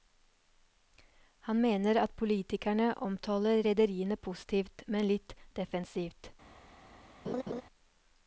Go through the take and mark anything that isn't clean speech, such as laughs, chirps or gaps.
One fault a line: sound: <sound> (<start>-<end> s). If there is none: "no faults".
sound: laugh (7.2-7.6 s)